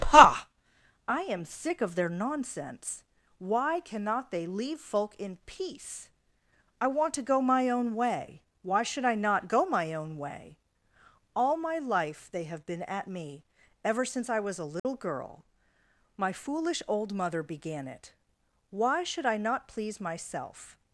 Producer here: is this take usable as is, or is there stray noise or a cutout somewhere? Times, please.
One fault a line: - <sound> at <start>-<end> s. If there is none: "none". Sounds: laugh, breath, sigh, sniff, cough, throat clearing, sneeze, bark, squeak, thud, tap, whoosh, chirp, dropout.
- dropout at 14.8-14.9 s